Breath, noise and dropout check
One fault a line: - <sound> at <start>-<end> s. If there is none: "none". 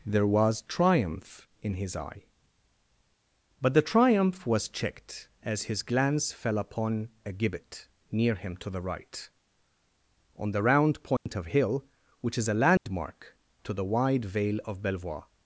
- dropout at 11.2-11.3 s
- dropout at 12.8-12.9 s